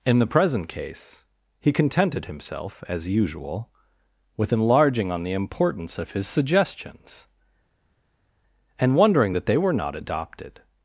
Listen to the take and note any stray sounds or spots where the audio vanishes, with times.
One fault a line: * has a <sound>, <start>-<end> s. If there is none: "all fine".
all fine